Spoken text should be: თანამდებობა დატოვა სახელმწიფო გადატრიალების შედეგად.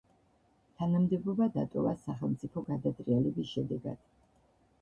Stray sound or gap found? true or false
false